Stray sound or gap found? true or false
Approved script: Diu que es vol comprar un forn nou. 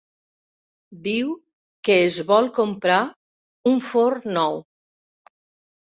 false